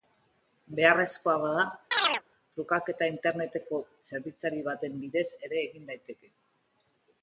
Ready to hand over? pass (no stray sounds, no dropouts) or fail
fail